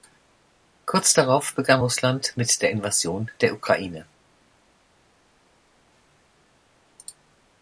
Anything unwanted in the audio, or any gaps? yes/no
no